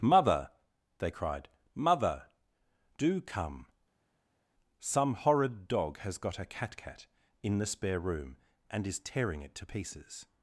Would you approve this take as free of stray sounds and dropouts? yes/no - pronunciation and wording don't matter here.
yes